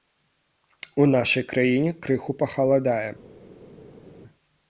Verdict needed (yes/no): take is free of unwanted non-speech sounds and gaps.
yes